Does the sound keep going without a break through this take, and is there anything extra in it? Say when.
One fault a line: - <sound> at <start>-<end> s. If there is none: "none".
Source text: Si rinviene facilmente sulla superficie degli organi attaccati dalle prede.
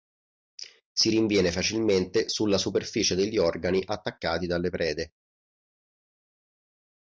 none